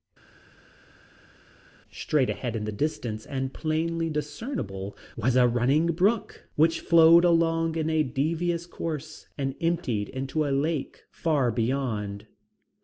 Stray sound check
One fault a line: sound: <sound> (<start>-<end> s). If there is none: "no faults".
no faults